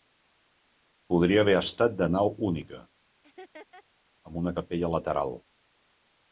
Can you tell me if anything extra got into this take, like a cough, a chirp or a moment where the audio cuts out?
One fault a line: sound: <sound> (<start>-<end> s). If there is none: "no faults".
sound: laugh (3.2-3.8 s)